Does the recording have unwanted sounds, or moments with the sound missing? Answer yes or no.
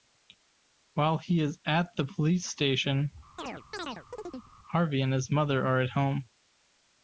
yes